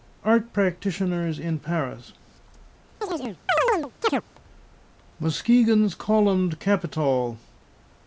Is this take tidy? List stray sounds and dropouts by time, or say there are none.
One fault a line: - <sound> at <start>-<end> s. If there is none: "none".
- chirp at 3.0-4.2 s